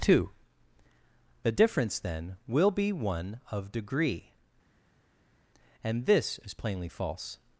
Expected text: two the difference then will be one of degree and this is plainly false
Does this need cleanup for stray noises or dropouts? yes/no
no